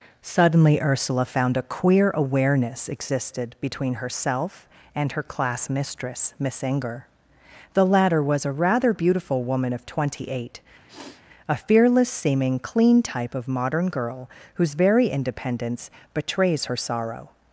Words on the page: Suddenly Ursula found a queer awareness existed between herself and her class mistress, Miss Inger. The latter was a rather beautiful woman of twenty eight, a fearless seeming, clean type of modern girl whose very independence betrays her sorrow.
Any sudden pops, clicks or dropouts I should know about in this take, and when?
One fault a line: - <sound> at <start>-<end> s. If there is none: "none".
- sniff at 10.9-11.2 s